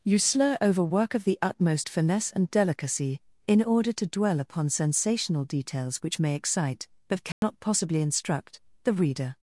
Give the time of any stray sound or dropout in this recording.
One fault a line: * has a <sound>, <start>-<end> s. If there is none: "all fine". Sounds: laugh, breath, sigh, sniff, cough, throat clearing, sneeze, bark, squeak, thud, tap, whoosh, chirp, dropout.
* has a dropout, 7.3-7.4 s